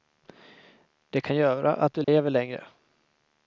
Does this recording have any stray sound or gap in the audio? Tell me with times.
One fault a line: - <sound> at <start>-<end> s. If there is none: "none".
- dropout at 2.0-2.1 s